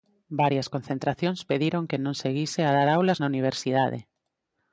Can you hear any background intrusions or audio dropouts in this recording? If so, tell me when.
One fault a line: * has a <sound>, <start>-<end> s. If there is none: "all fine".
all fine